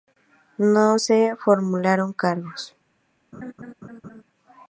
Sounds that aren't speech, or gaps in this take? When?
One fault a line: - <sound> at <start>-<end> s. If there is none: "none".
- laugh at 3.3-4.2 s